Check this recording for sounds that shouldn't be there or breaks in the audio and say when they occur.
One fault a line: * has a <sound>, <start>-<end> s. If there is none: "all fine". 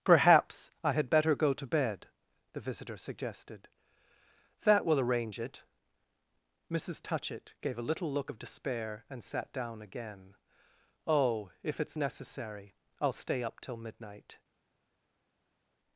all fine